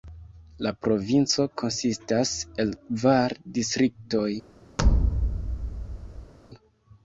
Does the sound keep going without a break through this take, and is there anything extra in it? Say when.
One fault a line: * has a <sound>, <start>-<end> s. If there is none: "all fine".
* has a thud, 4.8-6.3 s